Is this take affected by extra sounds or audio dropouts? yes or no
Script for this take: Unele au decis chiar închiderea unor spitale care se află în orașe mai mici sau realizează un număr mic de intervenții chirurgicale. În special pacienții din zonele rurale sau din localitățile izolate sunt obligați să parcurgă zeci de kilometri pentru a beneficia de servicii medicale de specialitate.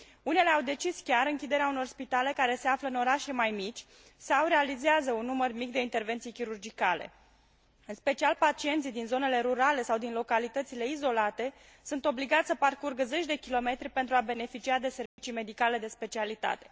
yes